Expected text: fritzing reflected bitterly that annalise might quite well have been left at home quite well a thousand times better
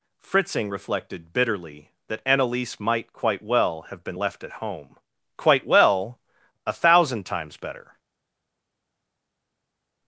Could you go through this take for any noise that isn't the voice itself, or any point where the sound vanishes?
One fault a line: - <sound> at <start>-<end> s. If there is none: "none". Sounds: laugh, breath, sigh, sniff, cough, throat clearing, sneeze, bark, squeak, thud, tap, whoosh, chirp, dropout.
none